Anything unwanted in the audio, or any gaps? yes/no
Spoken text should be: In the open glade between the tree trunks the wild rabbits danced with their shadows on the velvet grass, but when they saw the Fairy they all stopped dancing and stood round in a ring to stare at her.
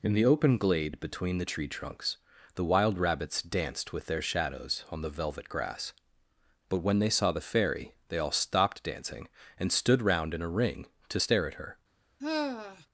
yes